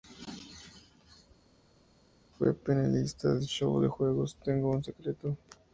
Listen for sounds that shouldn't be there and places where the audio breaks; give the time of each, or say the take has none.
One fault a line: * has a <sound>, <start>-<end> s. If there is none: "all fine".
all fine